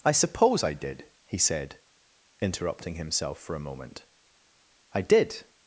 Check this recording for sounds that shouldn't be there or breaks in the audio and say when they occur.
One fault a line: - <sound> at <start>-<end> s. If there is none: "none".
none